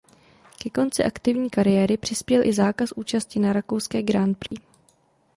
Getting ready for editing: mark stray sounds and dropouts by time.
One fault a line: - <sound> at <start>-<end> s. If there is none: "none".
- dropout at 4.5-4.5 s